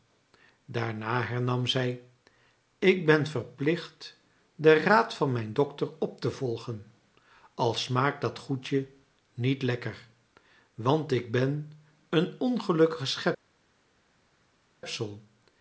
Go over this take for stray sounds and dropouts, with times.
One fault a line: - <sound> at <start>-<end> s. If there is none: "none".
none